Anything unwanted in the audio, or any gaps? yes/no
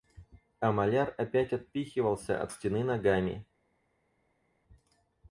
no